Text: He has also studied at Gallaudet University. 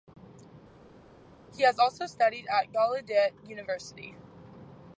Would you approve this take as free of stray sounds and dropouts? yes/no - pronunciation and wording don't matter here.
yes